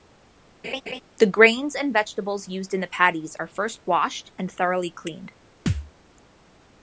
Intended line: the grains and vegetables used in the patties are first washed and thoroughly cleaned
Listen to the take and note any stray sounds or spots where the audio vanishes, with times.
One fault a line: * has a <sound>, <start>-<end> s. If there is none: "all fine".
* has a laugh, 0.6-1.0 s
* has a thud, 5.7-5.9 s